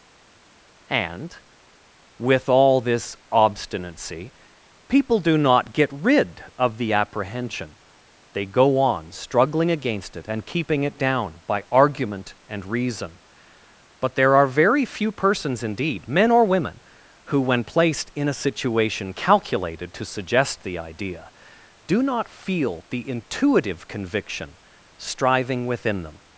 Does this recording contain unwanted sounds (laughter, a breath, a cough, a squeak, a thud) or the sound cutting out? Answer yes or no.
no